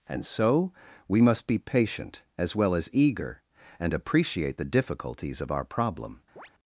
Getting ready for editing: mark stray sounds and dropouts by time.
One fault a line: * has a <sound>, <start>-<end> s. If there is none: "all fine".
* has a chirp, 6.4-6.5 s